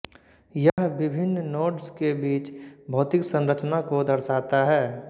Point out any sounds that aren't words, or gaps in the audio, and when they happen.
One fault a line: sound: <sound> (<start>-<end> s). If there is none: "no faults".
sound: dropout (0.7-0.8 s)